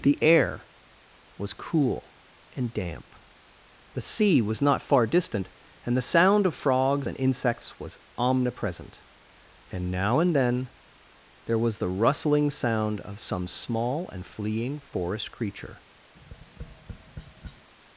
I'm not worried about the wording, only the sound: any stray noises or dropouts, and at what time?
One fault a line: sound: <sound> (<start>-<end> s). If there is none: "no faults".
sound: tap (16.2-17.7 s)